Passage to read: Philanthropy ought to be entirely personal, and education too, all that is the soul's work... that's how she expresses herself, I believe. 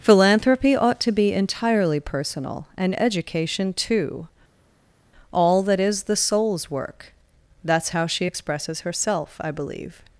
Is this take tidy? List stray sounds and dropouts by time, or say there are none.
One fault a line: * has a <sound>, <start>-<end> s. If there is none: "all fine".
all fine